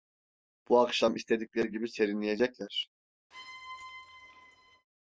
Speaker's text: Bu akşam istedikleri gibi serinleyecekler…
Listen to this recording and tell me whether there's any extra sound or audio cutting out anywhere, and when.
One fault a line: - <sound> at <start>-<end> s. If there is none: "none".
- squeak at 3.3-4.9 s